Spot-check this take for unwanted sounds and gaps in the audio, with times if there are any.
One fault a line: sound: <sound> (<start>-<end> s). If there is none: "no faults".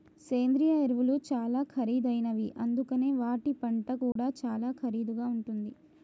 sound: dropout (4.1-4.2 s)